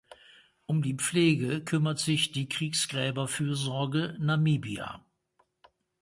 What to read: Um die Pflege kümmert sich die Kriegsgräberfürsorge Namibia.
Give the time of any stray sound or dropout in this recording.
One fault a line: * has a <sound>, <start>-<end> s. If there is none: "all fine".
all fine